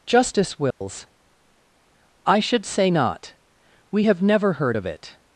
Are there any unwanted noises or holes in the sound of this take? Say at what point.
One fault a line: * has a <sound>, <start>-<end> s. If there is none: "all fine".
* has a dropout, 0.7-0.8 s